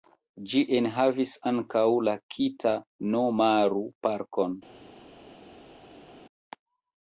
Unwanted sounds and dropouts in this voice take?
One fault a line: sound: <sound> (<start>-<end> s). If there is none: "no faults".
no faults